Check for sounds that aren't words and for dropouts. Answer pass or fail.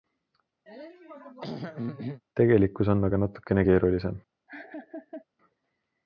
fail